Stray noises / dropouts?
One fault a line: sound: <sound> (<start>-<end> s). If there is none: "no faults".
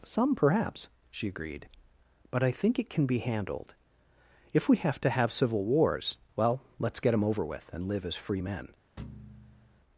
sound: thud (9.0-9.8 s)